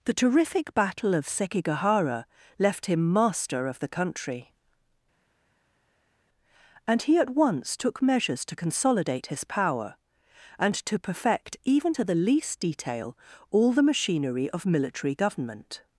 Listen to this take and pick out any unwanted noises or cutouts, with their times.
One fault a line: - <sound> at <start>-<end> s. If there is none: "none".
none